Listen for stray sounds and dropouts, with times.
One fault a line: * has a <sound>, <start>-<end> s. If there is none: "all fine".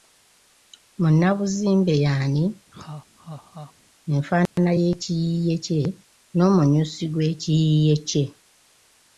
* has a laugh, 2.7-3.7 s
* has a dropout, 4.5-4.6 s